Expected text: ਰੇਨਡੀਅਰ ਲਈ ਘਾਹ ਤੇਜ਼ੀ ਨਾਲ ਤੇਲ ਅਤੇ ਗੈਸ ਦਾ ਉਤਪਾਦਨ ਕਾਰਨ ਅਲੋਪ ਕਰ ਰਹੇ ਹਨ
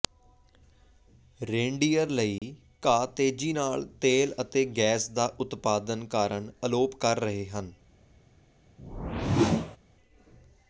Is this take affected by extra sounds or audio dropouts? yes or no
yes